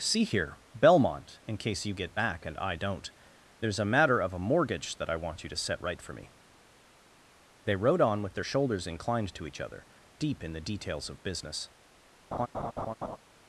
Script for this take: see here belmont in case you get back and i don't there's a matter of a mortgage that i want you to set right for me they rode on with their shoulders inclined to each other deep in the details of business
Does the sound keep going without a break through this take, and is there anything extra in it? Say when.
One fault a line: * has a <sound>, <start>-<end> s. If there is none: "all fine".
* has a laugh, 12.3-13.2 s